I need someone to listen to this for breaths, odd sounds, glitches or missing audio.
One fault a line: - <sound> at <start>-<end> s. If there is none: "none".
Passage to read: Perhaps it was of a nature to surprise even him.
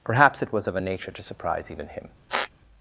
- squeak at 2.3-2.5 s